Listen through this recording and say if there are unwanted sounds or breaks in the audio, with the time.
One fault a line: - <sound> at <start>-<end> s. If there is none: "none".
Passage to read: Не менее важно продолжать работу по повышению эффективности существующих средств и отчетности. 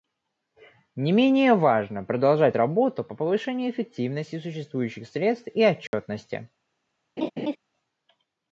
- dropout at 5.9-5.9 s
- laugh at 7.2-7.6 s